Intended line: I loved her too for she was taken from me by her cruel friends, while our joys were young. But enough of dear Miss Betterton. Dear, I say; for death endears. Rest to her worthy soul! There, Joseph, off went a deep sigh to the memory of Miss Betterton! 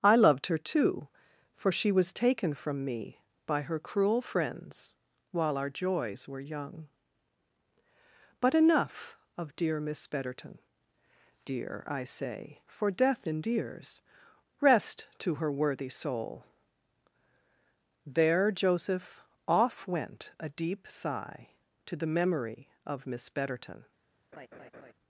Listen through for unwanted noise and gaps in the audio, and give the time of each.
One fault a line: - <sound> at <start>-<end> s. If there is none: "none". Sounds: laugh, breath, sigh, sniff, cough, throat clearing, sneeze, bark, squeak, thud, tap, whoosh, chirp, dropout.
- laugh at 24.3-24.9 s